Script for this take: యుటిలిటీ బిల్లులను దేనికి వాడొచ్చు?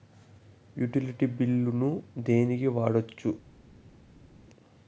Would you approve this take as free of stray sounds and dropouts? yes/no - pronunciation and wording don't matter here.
yes